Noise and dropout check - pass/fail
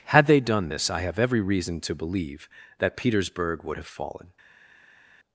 pass